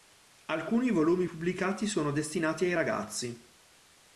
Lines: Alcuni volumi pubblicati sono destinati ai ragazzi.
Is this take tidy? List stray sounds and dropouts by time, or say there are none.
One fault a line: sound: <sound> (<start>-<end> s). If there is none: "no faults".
no faults